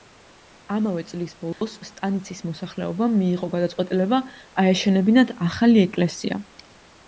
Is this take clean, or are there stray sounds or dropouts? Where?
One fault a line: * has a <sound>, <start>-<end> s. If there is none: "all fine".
* has a dropout, 1.5-1.6 s